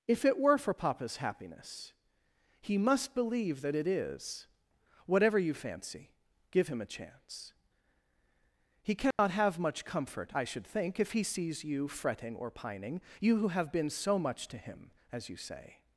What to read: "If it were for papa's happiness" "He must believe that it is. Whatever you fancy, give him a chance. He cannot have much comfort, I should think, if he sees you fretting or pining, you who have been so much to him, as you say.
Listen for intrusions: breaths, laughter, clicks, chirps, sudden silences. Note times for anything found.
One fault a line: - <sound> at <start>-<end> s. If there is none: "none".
- dropout at 9.1-9.2 s